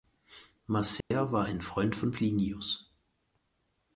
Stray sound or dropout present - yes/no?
yes